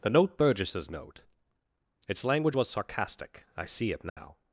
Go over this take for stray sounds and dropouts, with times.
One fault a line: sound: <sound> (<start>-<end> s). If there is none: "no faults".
sound: dropout (4.1-4.2 s)